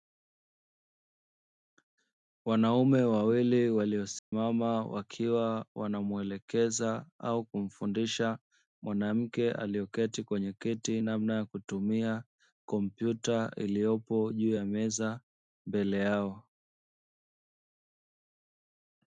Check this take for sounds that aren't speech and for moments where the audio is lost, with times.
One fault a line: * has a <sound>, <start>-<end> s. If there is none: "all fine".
* has a dropout, 4.2-4.3 s